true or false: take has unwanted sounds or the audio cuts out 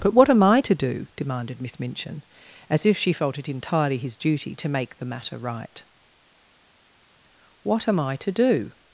false